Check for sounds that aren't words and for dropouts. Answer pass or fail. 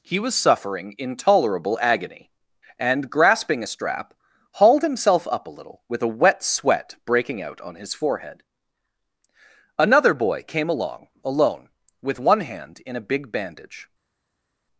pass